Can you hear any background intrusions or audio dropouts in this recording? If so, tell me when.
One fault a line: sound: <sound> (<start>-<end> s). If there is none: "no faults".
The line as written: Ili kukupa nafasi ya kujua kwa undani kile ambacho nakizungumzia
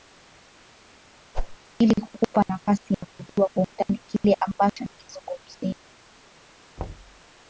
sound: whoosh (1.3-1.6 s)
sound: thud (6.8-7.2 s)